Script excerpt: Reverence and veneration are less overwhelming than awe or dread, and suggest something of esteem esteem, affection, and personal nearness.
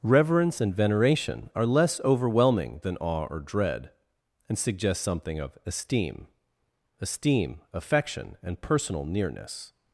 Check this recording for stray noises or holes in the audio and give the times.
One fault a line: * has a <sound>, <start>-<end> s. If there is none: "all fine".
all fine